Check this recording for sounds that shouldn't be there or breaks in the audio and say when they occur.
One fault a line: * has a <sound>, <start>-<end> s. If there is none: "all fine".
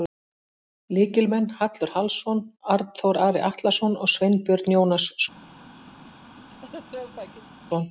* has a laugh, 6.5-7.5 s